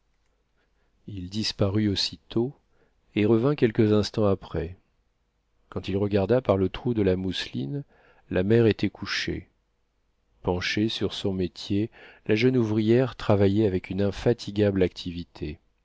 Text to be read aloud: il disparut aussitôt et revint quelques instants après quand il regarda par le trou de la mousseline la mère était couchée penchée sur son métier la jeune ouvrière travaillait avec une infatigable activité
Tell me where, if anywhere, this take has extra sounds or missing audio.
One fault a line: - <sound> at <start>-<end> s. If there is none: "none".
none